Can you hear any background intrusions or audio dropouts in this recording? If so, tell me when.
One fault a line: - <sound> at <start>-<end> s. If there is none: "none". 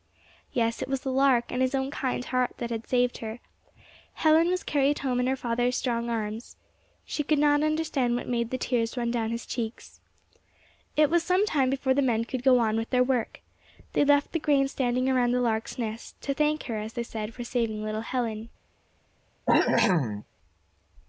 - cough at 19.5-20.3 s